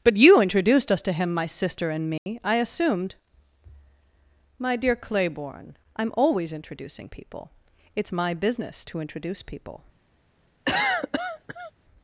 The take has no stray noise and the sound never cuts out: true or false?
false